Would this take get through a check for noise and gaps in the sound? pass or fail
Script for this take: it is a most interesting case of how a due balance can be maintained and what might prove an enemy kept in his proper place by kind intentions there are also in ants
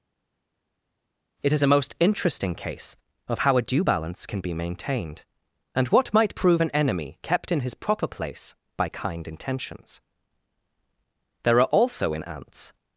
pass